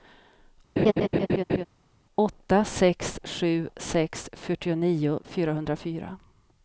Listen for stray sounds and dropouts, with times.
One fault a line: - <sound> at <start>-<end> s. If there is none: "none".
- laugh at 0.8-1.7 s